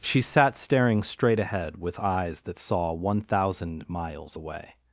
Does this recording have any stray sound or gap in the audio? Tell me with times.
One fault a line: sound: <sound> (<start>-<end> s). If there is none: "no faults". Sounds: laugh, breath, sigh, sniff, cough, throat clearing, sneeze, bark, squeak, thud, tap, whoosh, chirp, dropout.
no faults